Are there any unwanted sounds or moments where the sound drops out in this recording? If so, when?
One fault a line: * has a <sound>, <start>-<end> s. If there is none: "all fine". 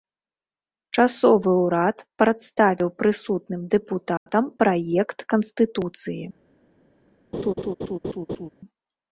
* has a dropout, 4.2-4.3 s
* has a laugh, 7.3-8.5 s